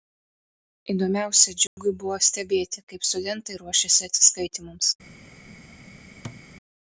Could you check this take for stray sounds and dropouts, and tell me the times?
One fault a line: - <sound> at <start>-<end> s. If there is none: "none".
- dropout at 1.7-1.8 s
- thud at 6.2-6.4 s